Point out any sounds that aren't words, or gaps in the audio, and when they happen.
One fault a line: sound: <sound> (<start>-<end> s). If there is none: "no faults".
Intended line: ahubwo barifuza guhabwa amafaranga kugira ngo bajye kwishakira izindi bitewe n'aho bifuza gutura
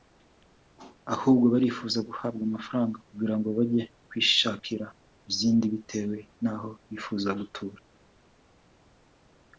no faults